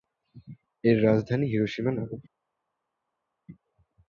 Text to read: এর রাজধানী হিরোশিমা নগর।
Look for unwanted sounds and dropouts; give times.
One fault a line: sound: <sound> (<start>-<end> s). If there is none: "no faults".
no faults